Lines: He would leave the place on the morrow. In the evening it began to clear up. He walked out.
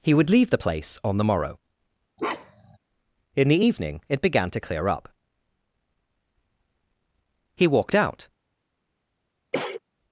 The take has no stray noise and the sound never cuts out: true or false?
false